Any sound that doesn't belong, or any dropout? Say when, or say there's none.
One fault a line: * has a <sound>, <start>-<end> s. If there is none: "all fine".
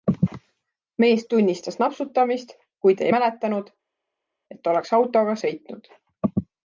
all fine